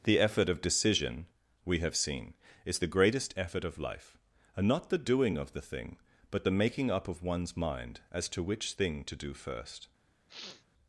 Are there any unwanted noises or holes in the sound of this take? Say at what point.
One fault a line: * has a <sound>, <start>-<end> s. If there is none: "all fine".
* has a sniff, 10.3-10.6 s